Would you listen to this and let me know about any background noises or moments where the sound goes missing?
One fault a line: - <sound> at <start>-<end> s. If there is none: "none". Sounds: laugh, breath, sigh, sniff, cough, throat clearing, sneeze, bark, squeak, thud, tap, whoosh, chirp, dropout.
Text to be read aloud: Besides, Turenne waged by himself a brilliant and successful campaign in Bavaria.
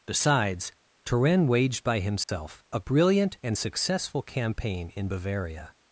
- dropout at 2.2-2.3 s